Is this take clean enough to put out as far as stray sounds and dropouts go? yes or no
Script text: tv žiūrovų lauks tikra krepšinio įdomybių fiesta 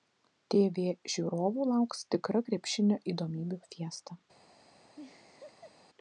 no